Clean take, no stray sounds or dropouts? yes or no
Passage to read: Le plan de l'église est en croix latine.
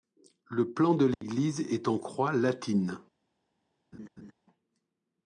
no